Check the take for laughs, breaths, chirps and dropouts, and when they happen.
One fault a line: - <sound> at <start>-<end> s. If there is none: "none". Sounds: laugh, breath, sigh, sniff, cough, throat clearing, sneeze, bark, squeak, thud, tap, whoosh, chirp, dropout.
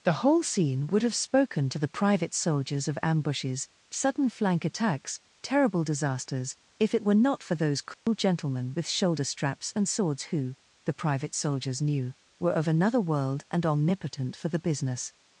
- dropout at 7.9-8.1 s